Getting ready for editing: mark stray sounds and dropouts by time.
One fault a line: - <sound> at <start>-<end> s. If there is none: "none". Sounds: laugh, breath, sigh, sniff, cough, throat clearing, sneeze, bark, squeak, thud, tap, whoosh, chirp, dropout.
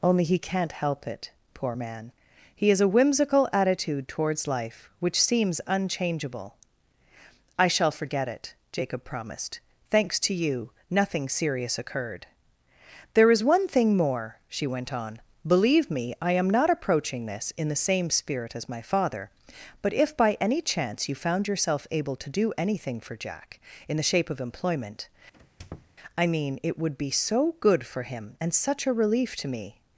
- squeak at 25.3-26.0 s